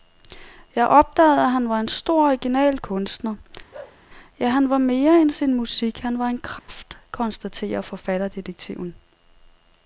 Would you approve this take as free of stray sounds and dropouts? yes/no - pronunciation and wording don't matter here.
no